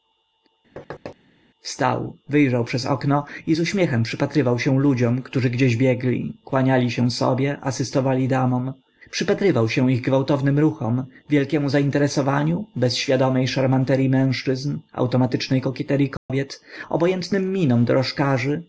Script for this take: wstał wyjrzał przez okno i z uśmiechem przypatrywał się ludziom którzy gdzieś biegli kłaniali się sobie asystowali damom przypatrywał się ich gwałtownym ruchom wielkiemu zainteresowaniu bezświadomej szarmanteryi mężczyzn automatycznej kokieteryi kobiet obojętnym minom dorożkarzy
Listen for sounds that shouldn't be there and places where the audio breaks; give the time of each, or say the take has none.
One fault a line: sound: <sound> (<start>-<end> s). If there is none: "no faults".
sound: thud (0.8-1.2 s)
sound: dropout (16.2-16.3 s)